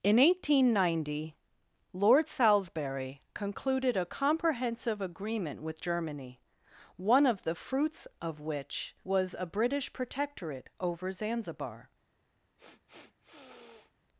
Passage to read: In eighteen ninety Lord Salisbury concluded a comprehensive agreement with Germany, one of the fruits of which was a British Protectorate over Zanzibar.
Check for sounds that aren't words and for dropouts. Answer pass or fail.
fail